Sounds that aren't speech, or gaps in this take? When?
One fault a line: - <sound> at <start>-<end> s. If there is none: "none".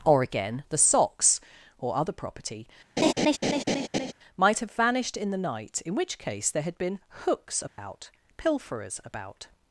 - laugh at 3.0-4.1 s
- dropout at 7.7-7.8 s